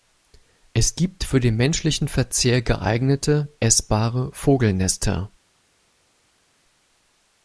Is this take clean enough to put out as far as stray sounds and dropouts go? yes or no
yes